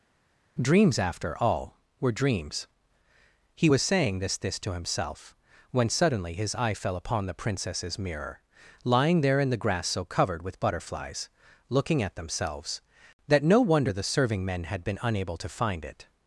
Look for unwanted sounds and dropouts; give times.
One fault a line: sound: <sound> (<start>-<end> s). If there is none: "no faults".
no faults